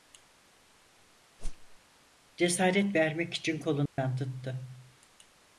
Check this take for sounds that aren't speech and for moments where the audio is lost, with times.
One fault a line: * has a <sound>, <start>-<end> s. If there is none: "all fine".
* has a whoosh, 1.4-1.8 s
* has a dropout, 3.9-4.0 s